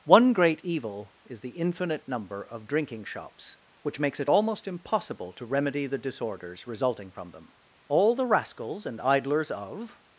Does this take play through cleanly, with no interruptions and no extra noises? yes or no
yes